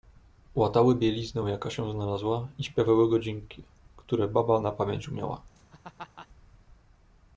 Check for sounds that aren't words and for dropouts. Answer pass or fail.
fail